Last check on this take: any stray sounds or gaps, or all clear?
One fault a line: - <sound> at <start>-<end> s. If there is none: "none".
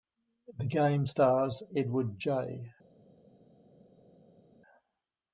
none